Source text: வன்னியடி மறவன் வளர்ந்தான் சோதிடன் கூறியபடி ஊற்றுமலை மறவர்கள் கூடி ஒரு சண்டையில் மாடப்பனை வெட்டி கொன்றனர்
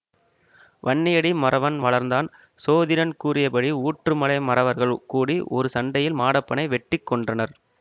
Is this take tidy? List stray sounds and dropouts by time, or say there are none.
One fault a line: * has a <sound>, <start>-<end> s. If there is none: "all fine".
all fine